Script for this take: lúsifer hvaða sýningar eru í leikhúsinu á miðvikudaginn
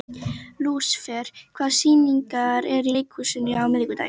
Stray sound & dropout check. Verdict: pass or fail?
pass